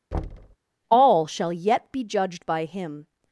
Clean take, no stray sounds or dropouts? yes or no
no